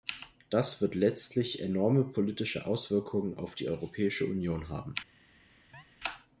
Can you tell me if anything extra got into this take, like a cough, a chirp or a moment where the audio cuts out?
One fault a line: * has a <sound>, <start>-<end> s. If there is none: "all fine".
* has a chirp, 5.7-5.8 s